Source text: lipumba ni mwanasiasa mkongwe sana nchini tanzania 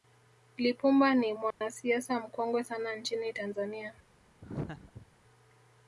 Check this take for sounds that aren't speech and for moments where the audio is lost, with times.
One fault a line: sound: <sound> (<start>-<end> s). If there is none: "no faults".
sound: dropout (1.5-1.6 s)
sound: laugh (4.4-5.1 s)